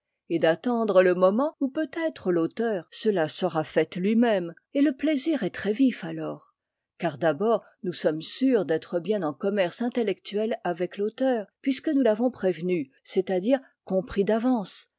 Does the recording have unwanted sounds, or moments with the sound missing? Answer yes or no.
no